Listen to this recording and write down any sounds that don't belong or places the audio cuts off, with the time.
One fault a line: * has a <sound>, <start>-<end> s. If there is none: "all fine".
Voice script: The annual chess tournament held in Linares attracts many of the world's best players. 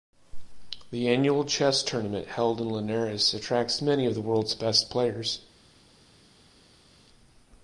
all fine